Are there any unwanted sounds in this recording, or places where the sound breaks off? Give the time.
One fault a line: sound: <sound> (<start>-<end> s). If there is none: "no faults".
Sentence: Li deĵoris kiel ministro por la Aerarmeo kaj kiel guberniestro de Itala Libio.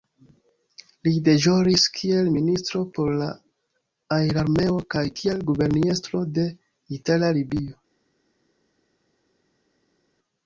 no faults